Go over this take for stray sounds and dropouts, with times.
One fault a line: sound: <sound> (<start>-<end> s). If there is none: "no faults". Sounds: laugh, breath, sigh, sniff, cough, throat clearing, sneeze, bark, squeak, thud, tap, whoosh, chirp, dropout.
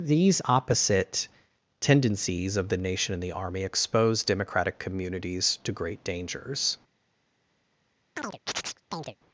sound: chirp (8.2-9.2 s)